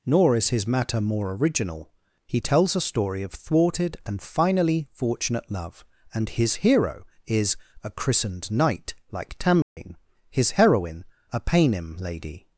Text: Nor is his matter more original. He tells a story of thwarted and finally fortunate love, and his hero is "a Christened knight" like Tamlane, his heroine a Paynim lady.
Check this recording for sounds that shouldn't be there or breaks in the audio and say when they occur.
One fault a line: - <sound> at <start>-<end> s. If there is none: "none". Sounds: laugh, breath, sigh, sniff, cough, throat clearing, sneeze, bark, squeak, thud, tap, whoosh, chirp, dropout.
- dropout at 9.6-9.8 s